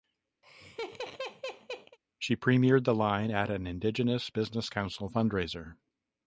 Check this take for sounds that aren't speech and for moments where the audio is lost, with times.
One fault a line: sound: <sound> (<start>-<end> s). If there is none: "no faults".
sound: laugh (0.4-2.0 s)